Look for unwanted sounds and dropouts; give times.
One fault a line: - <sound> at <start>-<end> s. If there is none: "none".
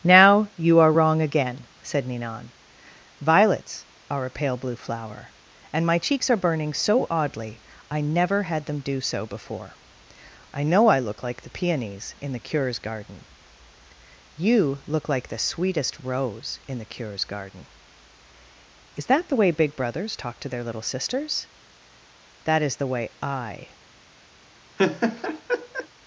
- laugh at 24.8-25.9 s